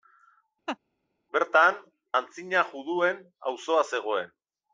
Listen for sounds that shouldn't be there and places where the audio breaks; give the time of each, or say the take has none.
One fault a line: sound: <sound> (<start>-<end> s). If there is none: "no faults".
sound: laugh (0.7-0.8 s)